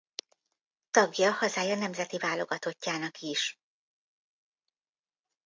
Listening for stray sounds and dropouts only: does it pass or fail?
pass